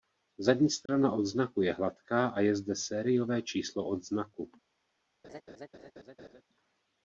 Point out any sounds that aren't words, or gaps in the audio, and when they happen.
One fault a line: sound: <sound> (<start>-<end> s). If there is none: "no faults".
sound: dropout (0.9-0.9 s)
sound: laugh (5.2-6.4 s)